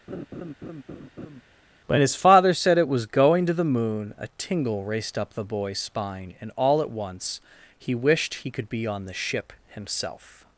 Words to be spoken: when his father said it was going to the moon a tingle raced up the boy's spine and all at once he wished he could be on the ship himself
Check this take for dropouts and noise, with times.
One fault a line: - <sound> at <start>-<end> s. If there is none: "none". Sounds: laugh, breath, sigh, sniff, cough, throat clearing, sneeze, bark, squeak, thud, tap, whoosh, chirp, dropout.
- laugh at 0.1-1.4 s